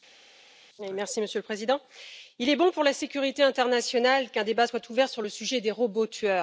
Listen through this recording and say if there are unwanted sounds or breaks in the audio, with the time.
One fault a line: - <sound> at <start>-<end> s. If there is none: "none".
none